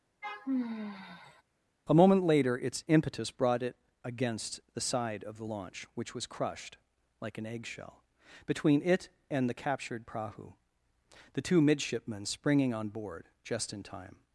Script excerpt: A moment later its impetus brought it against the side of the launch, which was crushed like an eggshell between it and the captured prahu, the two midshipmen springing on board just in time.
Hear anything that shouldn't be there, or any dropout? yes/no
yes